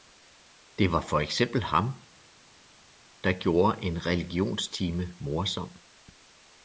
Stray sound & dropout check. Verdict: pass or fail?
pass